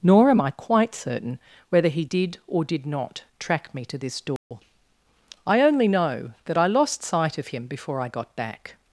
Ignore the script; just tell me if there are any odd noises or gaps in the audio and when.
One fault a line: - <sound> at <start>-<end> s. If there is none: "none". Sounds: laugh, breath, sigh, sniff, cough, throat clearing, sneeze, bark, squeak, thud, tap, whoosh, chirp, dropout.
- dropout at 4.4-4.5 s